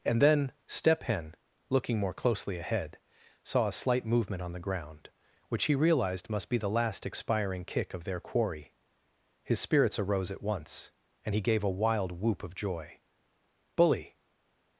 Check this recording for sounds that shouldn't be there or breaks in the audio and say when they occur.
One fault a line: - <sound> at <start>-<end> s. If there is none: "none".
none